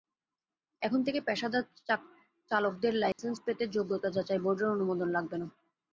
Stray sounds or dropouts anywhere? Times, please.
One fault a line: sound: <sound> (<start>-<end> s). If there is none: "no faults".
sound: dropout (3.1-3.2 s)